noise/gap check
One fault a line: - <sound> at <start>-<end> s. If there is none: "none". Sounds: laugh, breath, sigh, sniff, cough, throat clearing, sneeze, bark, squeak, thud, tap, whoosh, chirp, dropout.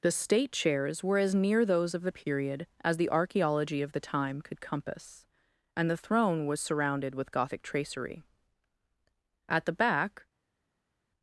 none